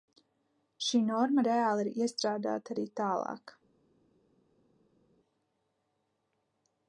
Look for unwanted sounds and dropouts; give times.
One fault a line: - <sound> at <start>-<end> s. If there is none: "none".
none